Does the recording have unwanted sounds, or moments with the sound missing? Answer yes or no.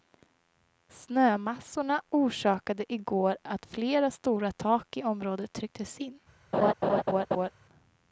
yes